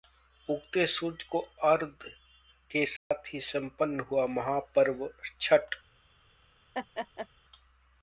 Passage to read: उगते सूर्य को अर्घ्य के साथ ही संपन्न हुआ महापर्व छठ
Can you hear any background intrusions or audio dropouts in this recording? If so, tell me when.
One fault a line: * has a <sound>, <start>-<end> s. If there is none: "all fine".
* has a dropout, 3.0-3.1 s
* has a laugh, 6.7-7.3 s